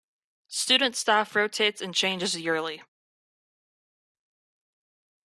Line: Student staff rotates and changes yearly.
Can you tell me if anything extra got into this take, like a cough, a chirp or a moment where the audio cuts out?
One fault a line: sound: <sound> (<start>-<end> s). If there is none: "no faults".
no faults